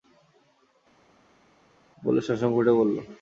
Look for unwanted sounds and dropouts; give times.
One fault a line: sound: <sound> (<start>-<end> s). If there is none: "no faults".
no faults